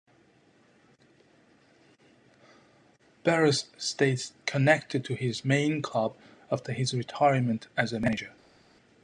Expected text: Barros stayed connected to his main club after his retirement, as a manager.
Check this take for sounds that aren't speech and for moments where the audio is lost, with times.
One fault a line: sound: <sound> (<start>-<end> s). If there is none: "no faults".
no faults